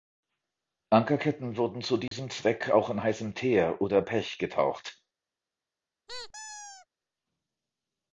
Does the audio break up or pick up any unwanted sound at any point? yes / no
yes